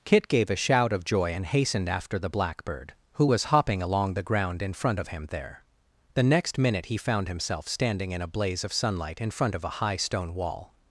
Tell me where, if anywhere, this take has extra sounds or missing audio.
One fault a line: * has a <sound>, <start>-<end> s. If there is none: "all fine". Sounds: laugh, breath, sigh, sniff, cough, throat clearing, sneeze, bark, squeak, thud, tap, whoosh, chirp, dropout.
all fine